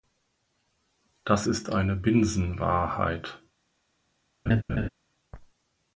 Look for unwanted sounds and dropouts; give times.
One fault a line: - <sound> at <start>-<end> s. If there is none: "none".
- laugh at 4.5-4.9 s